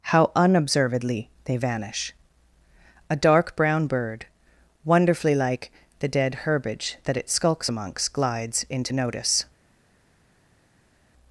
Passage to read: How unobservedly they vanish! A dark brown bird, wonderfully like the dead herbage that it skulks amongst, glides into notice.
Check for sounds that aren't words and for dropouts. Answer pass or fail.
pass